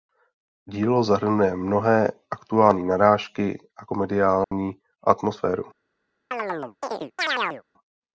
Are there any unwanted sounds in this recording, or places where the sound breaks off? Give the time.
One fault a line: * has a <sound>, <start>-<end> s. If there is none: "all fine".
* has a dropout, 4.4-4.5 s
* has a chirp, 6.3-7.6 s